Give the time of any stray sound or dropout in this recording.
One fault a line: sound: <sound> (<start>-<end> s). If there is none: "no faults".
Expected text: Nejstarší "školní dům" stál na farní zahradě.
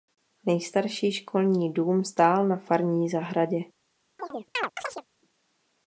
sound: chirp (4.2-5.0 s)